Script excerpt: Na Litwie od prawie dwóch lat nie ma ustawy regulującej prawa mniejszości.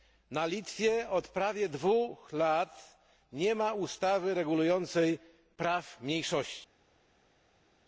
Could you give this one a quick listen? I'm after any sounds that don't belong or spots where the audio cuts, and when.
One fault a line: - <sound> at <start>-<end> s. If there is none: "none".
none